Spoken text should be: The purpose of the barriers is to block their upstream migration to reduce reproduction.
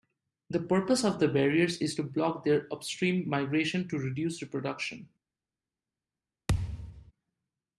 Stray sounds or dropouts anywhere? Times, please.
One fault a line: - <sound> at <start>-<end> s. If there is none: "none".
- thud at 6.5-7.1 s